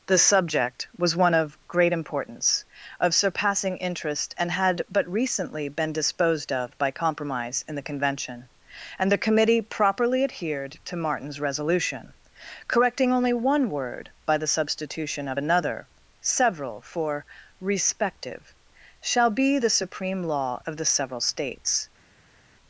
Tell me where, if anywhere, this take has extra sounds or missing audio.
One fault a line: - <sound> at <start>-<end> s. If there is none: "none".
none